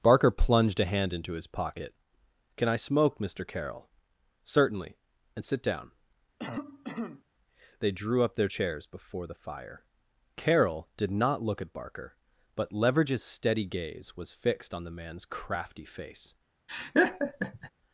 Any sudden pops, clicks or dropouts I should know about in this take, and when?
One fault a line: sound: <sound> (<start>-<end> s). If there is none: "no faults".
sound: cough (6.4-7.2 s)
sound: laugh (16.7-17.7 s)